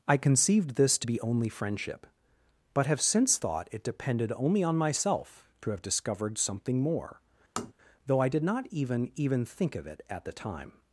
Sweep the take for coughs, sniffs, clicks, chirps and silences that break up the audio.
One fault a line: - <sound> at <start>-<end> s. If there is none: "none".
- tap at 7.6-7.7 s